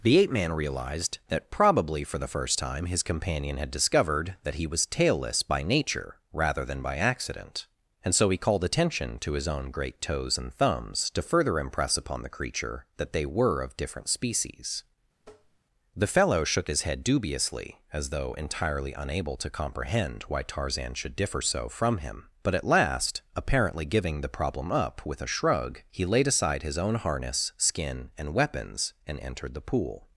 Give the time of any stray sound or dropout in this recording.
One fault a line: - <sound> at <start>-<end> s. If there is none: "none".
- tap at 15.2-15.6 s